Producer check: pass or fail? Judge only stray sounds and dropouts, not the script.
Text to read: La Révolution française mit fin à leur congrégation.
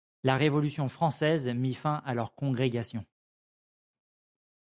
pass